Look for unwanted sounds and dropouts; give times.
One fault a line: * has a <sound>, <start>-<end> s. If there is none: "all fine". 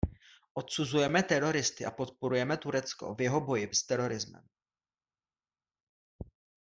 all fine